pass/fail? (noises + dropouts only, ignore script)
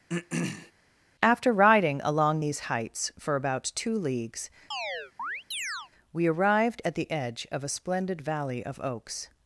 fail